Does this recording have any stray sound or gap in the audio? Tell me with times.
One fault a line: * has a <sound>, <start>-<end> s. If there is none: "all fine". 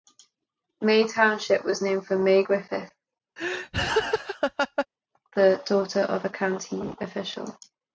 * has a laugh, 3.4-4.9 s